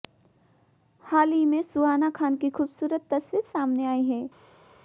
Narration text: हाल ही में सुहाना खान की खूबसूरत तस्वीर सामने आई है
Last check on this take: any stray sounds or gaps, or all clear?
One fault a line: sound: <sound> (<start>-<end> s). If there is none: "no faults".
no faults